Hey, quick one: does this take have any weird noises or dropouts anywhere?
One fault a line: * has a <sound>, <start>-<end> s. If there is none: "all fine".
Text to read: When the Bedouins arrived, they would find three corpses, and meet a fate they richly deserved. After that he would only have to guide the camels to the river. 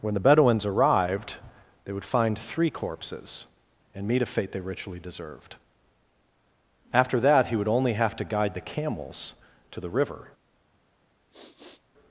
* has a sniff, 11.3-11.9 s